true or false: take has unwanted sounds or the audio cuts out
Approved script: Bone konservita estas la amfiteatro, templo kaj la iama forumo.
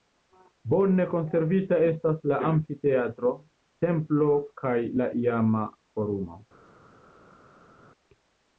false